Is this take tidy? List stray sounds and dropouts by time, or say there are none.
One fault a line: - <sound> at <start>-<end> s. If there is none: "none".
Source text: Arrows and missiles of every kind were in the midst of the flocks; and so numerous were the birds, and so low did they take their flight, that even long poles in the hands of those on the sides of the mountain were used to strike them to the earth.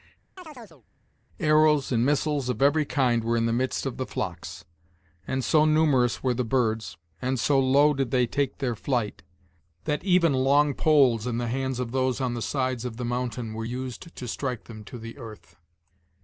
- chirp at 0.4-0.8 s